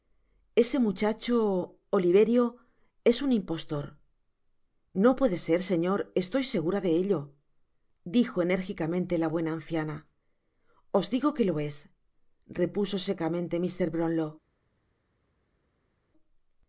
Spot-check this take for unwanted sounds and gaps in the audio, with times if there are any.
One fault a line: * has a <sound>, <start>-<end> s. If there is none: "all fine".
all fine